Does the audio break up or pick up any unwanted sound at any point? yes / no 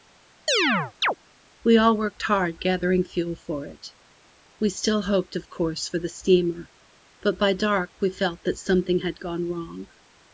yes